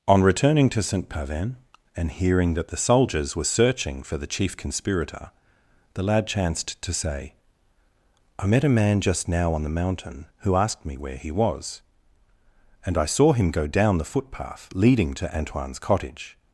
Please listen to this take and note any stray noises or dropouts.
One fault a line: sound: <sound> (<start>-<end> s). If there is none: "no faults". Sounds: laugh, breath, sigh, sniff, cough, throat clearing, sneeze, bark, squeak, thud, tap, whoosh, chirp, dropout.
no faults